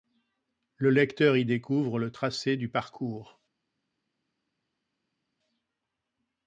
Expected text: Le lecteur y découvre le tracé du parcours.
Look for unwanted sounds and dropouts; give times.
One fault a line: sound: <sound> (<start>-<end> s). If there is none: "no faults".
no faults